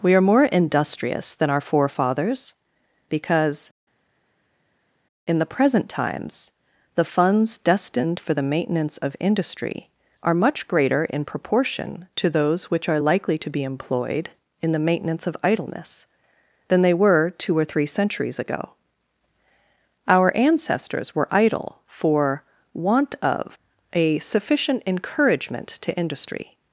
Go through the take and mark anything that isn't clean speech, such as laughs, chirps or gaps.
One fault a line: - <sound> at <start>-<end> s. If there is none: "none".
none